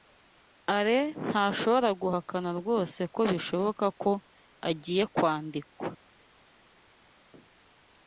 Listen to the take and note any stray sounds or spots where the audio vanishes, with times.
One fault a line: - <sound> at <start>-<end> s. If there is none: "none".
none